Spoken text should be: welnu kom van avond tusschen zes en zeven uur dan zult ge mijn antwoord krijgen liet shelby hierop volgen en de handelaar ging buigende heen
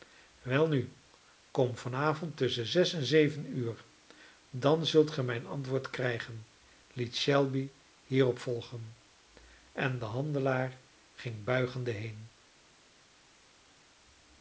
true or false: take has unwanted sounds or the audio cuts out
false